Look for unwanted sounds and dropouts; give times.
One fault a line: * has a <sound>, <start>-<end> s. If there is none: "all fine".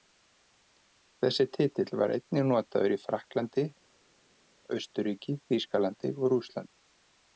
all fine